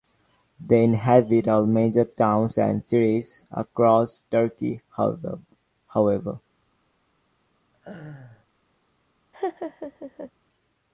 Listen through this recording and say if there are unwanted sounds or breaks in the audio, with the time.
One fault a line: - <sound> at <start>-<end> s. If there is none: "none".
- laugh at 7.7-8.5 s
- laugh at 9.3-10.3 s